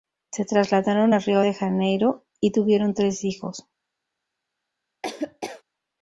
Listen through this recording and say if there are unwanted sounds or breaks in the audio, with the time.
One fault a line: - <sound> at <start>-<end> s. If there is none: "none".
- laugh at 5.0-5.6 s